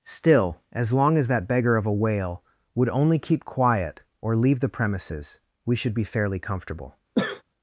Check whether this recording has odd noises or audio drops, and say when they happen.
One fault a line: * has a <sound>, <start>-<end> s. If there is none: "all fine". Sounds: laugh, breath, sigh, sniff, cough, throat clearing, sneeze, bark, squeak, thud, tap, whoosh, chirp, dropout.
* has a sneeze, 7.1-7.4 s